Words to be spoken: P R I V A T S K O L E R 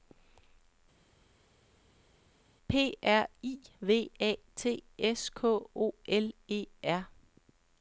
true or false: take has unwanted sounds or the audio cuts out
false